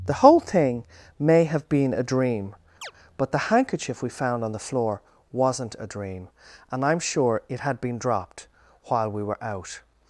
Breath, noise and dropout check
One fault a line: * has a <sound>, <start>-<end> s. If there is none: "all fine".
* has a chirp, 2.8-2.9 s